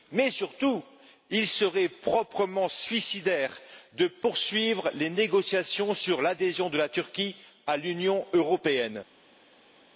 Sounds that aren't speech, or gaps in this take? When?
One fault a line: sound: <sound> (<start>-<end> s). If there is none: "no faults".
no faults